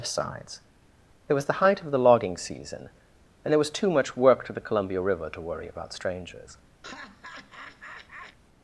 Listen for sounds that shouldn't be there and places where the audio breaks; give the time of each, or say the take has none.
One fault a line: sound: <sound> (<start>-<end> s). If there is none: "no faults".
sound: laugh (6.8-8.4 s)